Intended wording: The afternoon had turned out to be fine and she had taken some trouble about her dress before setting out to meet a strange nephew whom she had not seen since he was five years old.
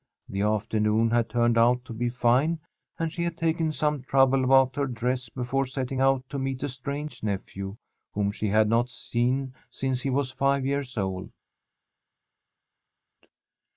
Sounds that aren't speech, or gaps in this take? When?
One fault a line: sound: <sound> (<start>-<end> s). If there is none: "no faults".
no faults